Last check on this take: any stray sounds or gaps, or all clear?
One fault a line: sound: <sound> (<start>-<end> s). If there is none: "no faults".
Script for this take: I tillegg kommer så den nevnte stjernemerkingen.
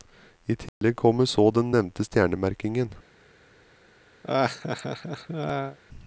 sound: dropout (0.7-0.8 s)
sound: laugh (4.2-5.8 s)